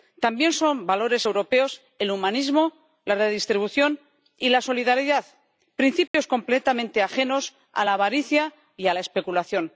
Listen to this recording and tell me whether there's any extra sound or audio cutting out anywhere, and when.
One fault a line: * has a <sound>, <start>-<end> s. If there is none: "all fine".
* has a dropout, 6.1-6.1 s